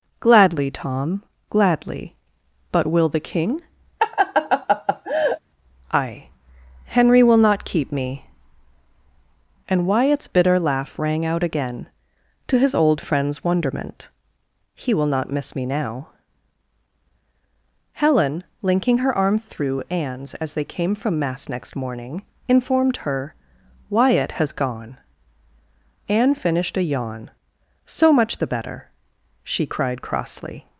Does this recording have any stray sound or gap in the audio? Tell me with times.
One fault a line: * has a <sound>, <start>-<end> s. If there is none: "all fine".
* has a laugh, 4.0-5.4 s